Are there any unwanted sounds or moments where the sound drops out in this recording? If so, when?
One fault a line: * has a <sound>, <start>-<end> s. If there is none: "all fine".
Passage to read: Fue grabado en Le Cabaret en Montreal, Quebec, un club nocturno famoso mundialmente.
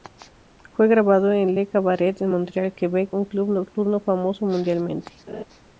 * has a laugh, 5.3-5.4 s